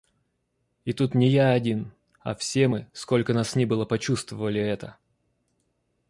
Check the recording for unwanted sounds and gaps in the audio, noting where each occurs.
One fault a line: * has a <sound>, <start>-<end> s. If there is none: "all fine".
all fine